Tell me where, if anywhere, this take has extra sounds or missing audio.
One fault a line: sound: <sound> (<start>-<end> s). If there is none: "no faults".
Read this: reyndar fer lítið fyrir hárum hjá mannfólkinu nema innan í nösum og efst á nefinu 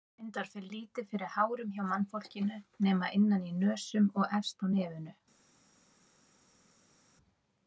no faults